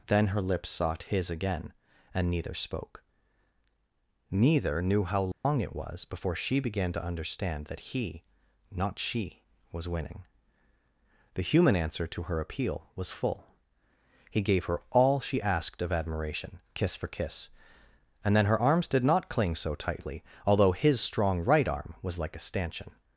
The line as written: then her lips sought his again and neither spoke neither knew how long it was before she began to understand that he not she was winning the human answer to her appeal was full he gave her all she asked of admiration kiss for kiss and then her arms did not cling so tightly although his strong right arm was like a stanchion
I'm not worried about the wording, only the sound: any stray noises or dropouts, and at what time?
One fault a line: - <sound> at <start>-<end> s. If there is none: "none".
- dropout at 5.3-5.4 s